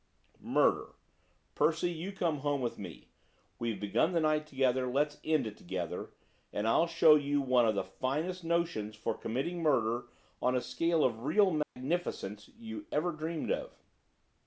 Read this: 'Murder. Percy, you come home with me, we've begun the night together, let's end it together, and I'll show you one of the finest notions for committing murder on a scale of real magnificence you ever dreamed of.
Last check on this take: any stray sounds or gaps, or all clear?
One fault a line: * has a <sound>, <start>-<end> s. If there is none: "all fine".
* has a dropout, 11.6-11.8 s